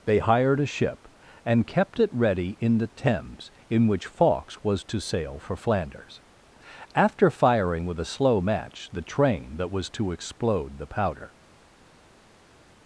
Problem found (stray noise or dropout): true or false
false